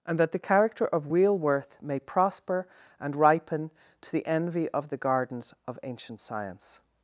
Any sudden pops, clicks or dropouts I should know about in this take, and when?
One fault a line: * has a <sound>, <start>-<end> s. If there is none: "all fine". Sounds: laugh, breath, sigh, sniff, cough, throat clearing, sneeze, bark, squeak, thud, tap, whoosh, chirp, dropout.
all fine